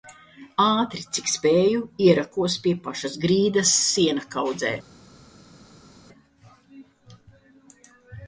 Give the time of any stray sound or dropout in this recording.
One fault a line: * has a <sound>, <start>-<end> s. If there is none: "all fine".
all fine